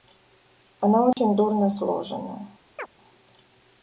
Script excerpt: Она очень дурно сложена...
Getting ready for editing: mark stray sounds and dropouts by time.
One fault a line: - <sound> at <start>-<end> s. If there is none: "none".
- dropout at 1.1-1.2 s
- chirp at 2.8-2.9 s